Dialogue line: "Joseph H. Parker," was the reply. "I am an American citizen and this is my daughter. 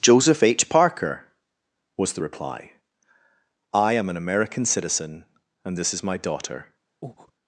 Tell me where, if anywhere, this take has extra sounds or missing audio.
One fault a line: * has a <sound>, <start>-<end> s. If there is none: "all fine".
* has a breath, 7.0-7.3 s